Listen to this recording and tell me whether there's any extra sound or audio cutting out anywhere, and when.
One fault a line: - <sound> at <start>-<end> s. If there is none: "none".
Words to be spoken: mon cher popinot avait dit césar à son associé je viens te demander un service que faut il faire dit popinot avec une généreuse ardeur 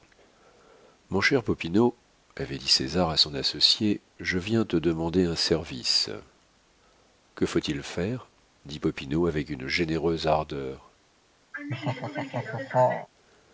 - laugh at 11.5-13.1 s